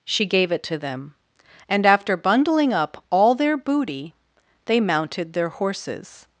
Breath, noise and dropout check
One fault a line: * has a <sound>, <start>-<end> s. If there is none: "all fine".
all fine